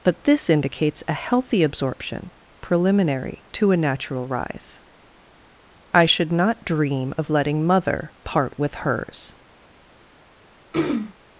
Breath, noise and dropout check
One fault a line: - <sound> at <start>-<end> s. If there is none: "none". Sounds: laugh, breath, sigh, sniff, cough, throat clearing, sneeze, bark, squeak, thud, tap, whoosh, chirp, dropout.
- throat clearing at 10.7-11.1 s